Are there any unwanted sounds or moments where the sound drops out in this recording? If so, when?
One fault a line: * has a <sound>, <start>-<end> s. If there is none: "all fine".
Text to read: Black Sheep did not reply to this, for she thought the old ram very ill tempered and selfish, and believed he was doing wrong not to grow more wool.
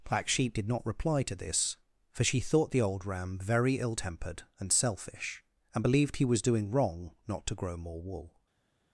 all fine